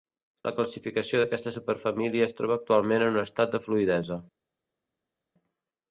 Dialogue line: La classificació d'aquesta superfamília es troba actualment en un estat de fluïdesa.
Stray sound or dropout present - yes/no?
no